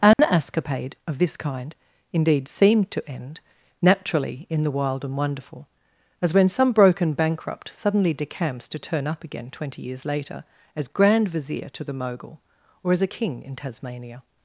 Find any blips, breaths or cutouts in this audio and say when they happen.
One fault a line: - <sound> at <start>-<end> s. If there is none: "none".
- dropout at 0.1-0.2 s